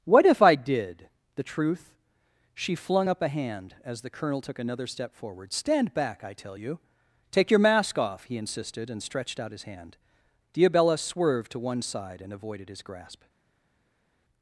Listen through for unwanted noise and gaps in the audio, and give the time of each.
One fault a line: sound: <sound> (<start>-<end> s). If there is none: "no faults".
no faults